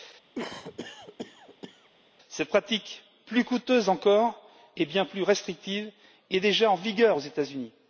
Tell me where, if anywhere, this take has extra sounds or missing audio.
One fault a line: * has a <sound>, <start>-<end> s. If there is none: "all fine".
* has a cough, 0.3-1.9 s